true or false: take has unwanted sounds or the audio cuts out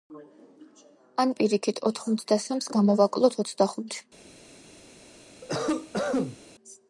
true